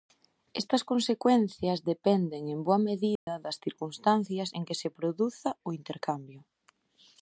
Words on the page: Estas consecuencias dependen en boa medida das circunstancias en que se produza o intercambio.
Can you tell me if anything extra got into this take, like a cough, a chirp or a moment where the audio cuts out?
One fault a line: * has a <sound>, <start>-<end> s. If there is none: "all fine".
* has a dropout, 3.2-3.3 s